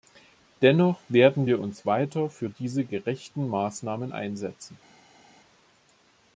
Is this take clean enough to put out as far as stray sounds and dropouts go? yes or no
yes